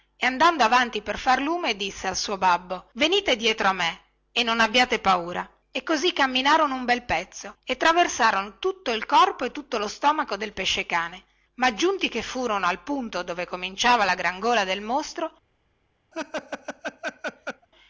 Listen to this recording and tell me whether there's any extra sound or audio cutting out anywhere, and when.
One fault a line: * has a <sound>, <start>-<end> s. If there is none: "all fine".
* has a laugh, 16.1-17.7 s